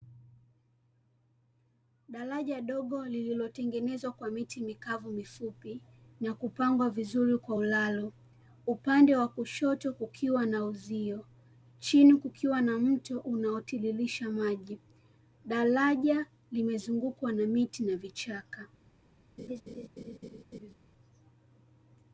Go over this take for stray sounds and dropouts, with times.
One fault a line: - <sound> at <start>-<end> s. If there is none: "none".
- laugh at 19.4-20.7 s